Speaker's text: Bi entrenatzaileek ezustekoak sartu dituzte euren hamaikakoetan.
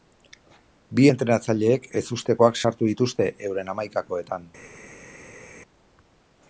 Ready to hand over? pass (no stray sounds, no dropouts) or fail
pass